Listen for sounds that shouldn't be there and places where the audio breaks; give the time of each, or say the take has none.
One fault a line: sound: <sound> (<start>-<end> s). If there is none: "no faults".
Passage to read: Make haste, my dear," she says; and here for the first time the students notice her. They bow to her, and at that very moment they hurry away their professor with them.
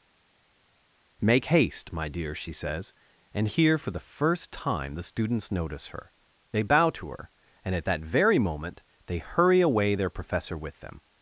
no faults